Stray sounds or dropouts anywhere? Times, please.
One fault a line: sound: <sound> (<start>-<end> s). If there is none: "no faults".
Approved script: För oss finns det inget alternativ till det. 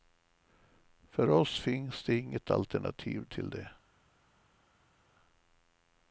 no faults